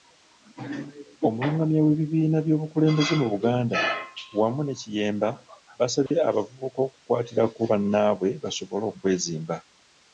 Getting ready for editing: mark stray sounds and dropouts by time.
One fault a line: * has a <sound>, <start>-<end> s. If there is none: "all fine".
* has a dropout, 6.1-6.1 s